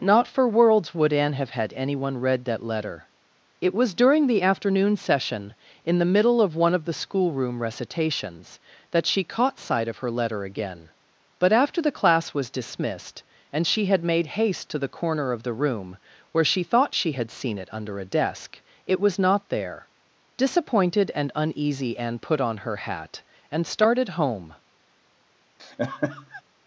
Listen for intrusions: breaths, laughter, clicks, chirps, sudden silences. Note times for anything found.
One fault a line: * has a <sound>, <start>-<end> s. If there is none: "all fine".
* has a laugh, 25.6-26.4 s